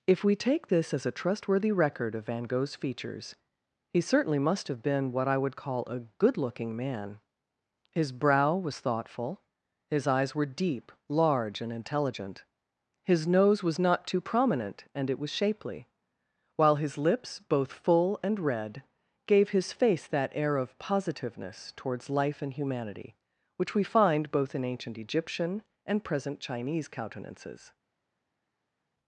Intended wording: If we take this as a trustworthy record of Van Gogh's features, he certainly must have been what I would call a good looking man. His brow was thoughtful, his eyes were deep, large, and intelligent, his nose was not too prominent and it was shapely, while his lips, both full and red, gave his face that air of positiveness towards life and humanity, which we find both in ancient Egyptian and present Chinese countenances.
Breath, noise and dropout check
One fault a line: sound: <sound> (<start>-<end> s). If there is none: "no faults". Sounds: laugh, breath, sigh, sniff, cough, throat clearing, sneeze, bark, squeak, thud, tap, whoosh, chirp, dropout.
no faults